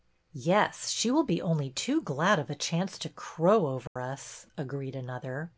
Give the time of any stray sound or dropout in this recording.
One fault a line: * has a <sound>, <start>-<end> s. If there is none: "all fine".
* has a dropout, 3.9-4.0 s